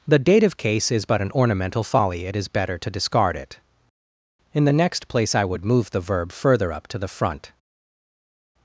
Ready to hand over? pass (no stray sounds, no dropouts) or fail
pass